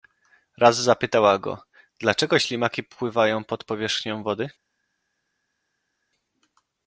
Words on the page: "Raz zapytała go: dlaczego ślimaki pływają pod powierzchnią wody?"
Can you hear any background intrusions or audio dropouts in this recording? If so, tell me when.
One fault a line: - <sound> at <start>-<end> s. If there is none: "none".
none